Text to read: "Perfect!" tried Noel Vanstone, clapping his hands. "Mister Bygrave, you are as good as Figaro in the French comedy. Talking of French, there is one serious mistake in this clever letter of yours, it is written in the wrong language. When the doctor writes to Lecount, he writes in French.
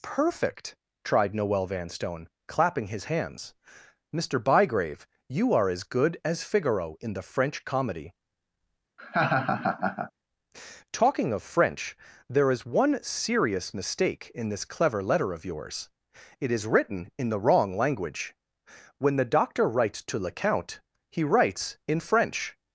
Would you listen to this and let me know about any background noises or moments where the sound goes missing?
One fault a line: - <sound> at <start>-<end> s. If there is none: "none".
- laugh at 9.0-10.1 s